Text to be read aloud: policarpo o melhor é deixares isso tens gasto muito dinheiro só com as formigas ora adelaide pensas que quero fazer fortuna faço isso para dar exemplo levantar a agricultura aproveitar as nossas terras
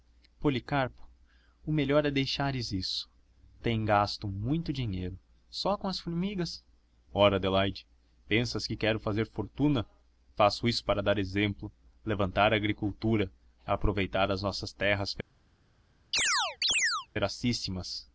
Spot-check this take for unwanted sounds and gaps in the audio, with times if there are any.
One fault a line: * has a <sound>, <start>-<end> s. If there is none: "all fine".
* has a chirp, 16.1-17.1 s